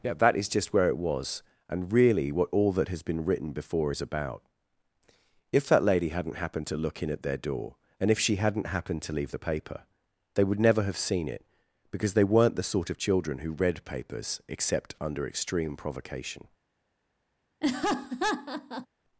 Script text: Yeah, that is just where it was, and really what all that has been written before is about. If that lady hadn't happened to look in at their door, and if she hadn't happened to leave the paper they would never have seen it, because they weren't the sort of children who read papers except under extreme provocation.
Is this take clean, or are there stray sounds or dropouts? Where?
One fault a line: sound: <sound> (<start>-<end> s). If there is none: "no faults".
sound: laugh (17.6-18.9 s)